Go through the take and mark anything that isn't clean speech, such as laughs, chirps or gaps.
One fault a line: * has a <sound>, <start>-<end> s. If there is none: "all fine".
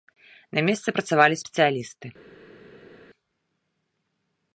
all fine